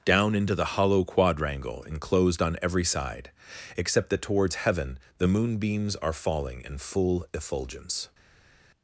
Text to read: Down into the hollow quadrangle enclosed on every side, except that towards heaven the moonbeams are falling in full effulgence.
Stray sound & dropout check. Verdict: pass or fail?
pass